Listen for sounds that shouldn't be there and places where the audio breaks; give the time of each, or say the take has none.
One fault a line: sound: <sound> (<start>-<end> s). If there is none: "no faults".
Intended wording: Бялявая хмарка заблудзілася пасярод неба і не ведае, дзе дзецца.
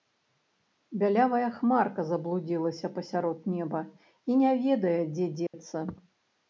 sound: dropout (5.5-5.5 s)